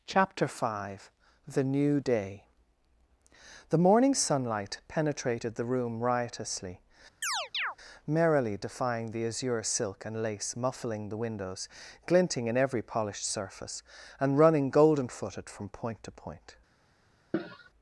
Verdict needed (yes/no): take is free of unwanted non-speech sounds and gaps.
no